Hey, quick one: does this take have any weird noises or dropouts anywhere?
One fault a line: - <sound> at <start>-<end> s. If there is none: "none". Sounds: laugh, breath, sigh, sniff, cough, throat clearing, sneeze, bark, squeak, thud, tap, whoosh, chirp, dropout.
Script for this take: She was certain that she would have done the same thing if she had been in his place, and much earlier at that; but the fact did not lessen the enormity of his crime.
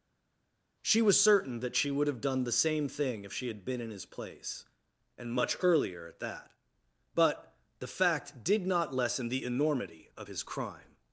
none